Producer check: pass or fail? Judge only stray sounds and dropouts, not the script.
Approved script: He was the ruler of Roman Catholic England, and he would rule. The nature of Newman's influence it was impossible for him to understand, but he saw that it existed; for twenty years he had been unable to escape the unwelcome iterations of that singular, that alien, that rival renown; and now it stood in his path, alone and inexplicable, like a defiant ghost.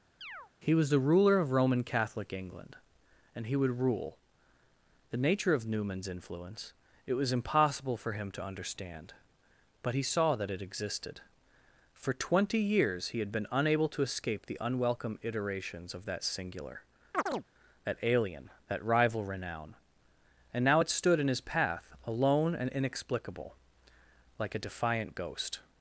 fail